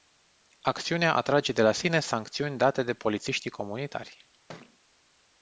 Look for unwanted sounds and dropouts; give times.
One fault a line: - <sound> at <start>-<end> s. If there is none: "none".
- thud at 4.5-4.8 s